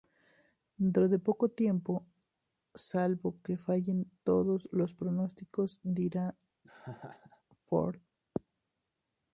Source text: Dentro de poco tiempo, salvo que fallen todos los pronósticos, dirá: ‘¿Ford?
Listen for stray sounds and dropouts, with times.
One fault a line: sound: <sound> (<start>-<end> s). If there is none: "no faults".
sound: laugh (6.6-7.4 s)